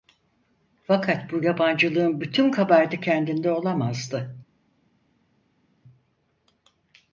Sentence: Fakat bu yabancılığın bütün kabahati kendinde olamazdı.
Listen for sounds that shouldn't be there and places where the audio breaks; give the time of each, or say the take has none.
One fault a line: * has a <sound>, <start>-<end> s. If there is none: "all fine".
all fine